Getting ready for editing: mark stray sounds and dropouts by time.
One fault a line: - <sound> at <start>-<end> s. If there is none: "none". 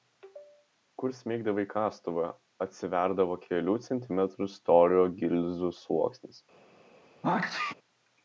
- sneeze at 7.2-7.7 s